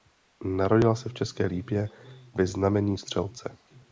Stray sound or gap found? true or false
false